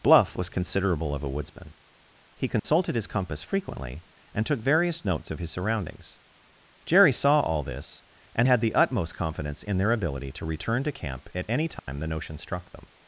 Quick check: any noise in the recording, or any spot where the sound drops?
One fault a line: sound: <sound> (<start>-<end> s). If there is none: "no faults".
sound: dropout (2.6-2.6 s)
sound: dropout (11.8-11.9 s)